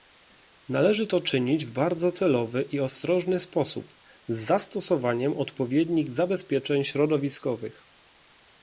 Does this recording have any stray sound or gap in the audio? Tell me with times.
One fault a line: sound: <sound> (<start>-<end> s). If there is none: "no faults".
no faults